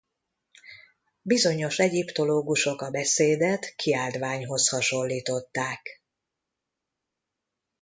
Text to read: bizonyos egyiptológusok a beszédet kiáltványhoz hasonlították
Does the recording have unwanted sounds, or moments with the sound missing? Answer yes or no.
no